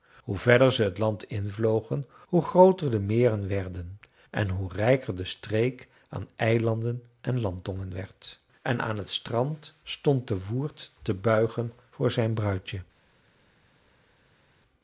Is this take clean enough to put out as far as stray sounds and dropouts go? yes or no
yes